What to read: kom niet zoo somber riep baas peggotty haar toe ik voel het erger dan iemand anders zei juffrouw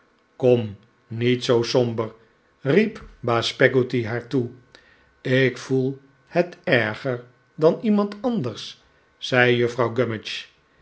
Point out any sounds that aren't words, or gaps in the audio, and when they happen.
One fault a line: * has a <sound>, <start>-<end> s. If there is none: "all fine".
all fine